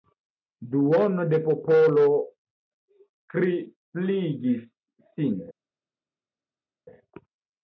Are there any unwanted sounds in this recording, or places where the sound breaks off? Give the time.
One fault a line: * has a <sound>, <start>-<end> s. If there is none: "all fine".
all fine